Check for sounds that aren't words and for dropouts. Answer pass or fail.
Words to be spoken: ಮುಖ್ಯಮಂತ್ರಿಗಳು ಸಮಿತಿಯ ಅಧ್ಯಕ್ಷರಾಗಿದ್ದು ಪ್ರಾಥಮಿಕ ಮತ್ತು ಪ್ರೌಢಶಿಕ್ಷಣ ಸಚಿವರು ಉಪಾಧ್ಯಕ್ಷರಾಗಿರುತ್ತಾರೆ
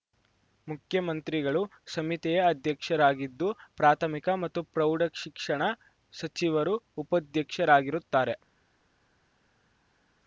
pass